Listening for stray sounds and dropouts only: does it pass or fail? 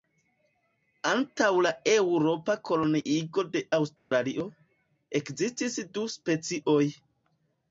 fail